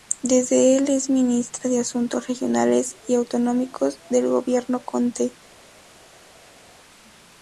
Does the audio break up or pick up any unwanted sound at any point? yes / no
no